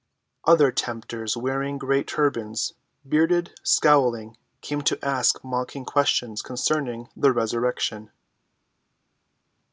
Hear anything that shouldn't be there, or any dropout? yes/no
no